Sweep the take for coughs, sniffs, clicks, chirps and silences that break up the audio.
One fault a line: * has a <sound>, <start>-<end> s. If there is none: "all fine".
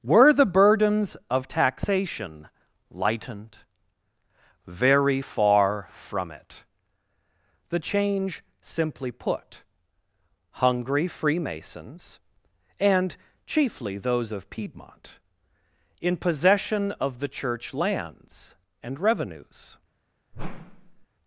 * has a whoosh, 20.3-21.1 s